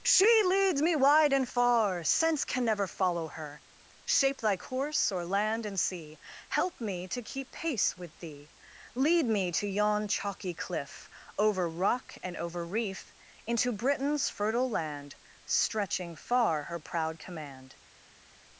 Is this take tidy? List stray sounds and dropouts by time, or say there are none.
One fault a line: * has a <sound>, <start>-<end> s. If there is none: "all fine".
all fine